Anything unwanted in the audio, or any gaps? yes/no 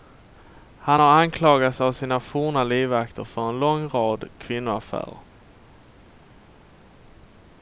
no